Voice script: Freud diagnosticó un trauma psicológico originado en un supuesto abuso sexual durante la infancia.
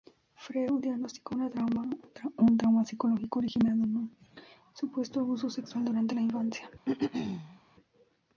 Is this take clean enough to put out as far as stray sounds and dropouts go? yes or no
no